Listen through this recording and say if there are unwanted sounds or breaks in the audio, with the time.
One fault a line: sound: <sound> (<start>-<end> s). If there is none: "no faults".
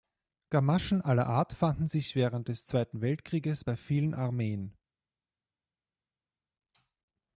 no faults